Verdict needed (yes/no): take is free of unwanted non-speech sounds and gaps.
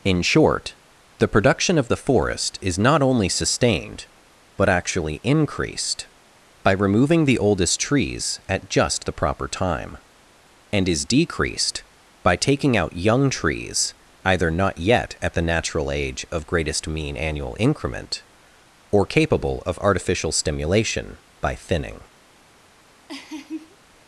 no